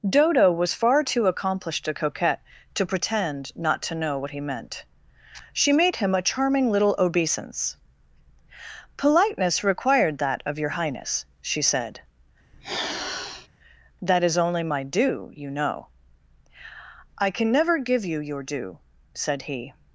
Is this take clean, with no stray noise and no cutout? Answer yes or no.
no